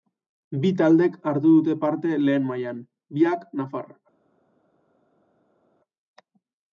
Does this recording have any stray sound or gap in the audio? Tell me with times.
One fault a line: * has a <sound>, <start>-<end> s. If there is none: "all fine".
all fine